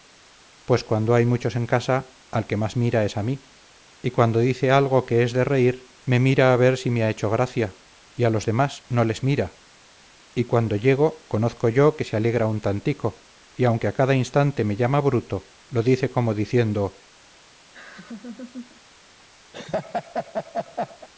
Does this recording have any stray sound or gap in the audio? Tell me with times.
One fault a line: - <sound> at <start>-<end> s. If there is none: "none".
- laugh at 17.7-18.8 s
- laugh at 19.5-21.1 s